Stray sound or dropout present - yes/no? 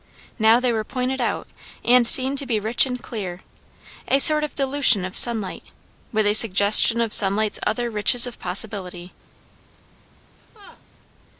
yes